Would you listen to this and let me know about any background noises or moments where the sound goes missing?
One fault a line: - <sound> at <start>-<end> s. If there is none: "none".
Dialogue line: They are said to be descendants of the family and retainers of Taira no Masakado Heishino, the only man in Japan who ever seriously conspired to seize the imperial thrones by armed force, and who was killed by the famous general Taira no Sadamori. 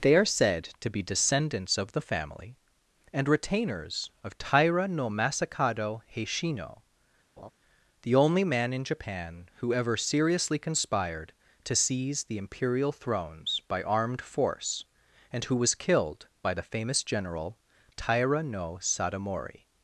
- laugh at 7.4-7.5 s